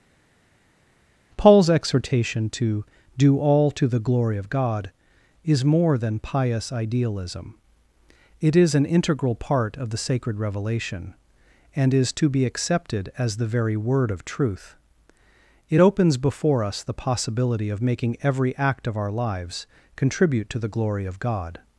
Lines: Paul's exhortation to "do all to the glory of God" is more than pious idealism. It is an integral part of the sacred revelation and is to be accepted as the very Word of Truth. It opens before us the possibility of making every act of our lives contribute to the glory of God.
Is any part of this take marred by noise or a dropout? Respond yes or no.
no